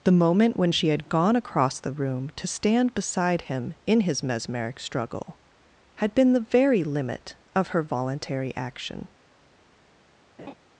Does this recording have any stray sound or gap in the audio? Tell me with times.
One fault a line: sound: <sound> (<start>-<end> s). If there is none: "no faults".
sound: laugh (10.4-10.5 s)